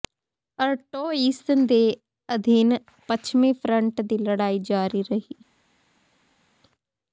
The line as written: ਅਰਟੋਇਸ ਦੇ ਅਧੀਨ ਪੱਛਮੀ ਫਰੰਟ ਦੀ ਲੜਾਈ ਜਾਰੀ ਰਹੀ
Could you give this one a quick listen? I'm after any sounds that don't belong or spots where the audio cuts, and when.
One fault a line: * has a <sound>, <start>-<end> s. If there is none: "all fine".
all fine